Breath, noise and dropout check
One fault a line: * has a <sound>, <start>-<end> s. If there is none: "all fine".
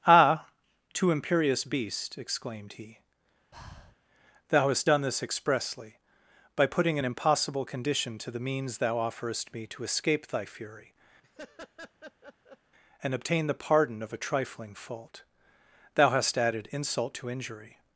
* has a breath, 3.5-4.0 s
* has a laugh, 11.2-12.6 s